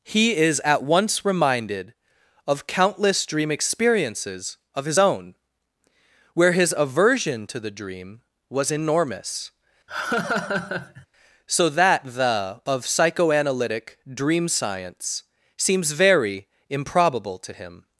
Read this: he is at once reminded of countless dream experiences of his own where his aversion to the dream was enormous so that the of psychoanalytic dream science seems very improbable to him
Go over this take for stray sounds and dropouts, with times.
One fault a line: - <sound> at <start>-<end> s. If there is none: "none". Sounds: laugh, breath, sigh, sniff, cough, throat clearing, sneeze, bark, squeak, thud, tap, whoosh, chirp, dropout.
- laugh at 9.9-11.1 s